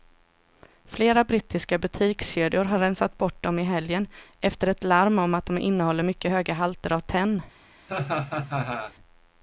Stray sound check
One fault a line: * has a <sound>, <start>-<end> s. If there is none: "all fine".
* has a laugh, 7.9-8.9 s